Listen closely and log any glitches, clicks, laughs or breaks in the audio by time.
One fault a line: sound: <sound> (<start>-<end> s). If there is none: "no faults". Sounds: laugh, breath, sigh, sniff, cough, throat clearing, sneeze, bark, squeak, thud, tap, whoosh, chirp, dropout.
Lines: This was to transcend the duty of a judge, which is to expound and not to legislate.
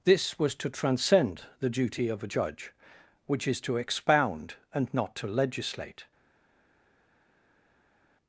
no faults